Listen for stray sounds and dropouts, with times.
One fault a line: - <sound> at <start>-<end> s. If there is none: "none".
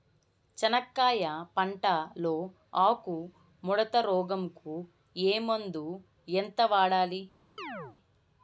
- chirp at 7.6-8.0 s